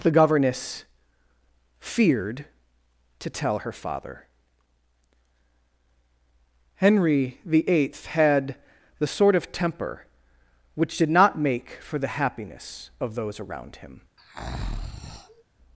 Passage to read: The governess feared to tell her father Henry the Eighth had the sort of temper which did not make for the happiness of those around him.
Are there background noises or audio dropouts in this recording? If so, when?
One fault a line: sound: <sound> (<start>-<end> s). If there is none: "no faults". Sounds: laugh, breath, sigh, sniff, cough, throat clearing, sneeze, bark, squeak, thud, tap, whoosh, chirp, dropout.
sound: breath (14.2-15.4 s)